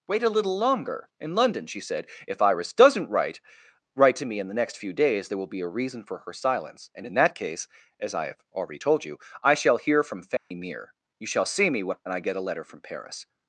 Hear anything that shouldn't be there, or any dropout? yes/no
yes